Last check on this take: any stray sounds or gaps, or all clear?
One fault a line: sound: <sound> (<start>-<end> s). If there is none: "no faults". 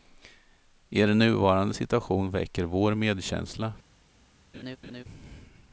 sound: laugh (4.5-5.0 s)